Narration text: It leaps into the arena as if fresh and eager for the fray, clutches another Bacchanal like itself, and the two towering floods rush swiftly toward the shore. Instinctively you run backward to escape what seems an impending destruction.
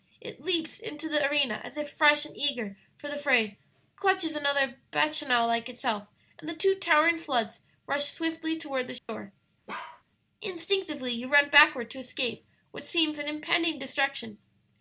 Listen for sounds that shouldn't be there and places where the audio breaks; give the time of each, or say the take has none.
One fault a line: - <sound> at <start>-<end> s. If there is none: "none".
- dropout at 9.0-9.1 s
- bark at 9.7-10.0 s